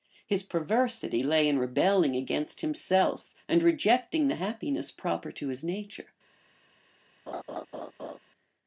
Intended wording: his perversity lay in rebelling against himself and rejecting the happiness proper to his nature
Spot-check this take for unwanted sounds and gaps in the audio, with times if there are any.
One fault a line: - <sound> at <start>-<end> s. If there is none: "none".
- laugh at 7.3-8.2 s